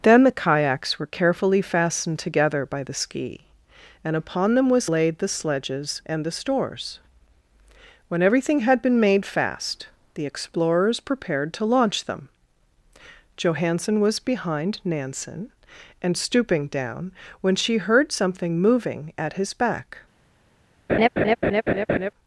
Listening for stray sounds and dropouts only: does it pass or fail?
fail